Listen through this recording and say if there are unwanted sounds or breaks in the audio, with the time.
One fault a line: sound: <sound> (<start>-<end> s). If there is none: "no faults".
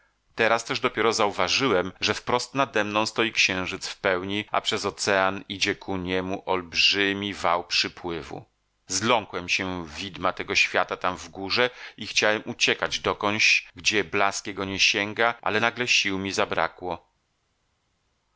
no faults